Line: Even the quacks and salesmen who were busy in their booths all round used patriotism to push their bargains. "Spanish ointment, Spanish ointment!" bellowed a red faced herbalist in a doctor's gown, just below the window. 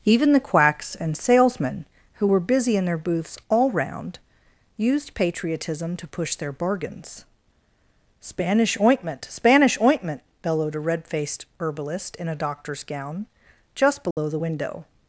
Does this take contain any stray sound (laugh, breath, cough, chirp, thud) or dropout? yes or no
yes